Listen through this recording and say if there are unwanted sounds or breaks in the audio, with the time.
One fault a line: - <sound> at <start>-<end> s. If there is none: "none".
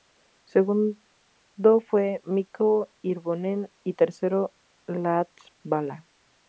none